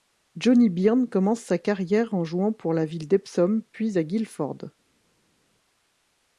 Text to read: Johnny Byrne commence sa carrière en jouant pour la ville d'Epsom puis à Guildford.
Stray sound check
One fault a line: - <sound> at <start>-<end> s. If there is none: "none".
none